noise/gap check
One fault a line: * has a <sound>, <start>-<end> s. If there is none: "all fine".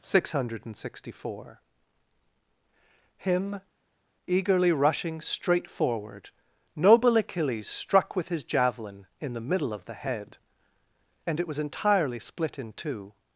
all fine